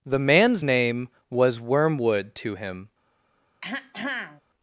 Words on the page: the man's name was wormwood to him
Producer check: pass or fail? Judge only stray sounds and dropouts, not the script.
fail